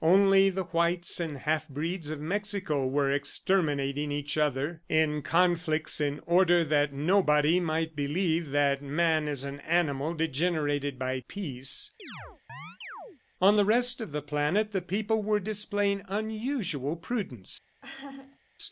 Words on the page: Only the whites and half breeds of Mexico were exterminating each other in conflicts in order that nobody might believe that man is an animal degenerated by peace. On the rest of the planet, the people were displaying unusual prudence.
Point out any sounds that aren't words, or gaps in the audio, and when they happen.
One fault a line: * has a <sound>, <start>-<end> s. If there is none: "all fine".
* has a chirp, 12.0-13.2 s
* has a laugh, 17.8-18.4 s